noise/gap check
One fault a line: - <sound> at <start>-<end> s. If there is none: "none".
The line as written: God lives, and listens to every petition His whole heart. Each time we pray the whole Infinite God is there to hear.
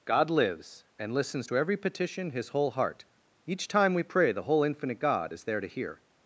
none